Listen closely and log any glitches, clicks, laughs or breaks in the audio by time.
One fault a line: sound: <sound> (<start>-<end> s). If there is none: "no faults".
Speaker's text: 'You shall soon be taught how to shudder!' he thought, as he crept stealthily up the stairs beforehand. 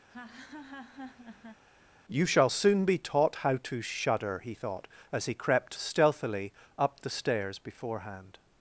sound: laugh (0.1-1.6 s)